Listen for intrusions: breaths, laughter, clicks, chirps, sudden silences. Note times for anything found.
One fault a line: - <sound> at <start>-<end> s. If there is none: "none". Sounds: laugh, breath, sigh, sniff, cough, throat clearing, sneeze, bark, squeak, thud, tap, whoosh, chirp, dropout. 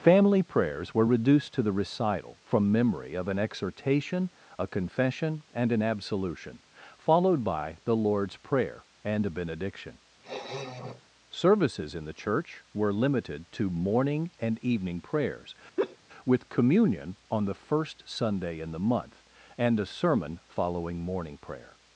- sniff at 10.2-11.0 s
- laugh at 15.8-16.0 s